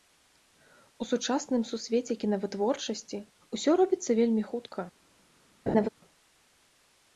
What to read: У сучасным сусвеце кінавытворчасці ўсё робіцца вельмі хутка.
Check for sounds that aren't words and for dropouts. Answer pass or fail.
fail